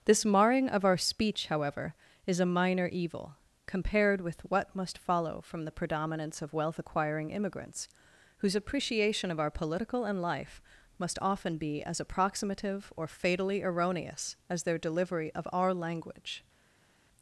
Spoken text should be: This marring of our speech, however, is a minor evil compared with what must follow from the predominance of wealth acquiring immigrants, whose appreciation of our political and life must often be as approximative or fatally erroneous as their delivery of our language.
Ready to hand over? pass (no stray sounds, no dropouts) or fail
pass